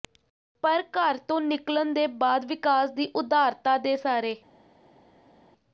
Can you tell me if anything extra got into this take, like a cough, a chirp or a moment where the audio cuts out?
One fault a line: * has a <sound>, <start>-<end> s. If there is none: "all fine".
all fine